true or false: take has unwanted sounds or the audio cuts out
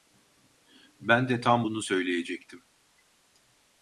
false